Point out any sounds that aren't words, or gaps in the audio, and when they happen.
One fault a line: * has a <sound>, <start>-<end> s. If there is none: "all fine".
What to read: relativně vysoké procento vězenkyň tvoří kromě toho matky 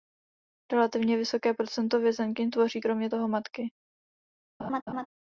* has a laugh, 4.6-5.1 s